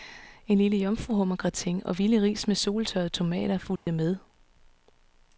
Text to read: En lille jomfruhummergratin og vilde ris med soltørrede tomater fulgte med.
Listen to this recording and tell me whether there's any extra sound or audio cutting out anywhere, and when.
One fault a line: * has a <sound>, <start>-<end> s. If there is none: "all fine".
* has a dropout, 3.8-3.9 s